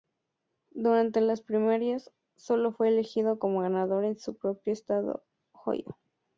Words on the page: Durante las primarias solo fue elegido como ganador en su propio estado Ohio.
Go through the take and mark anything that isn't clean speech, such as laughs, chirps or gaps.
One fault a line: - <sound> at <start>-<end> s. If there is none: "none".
none